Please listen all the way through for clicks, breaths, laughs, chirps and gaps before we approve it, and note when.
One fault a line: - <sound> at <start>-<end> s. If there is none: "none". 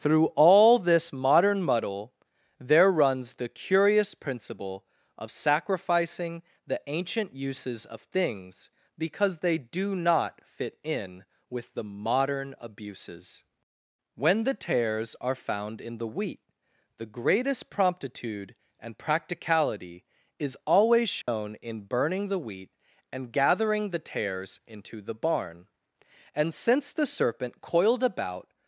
- dropout at 21.2-21.3 s